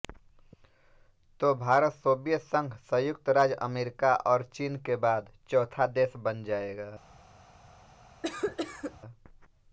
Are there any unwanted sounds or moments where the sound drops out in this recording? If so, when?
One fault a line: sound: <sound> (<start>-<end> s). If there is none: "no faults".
sound: cough (8.2-9.0 s)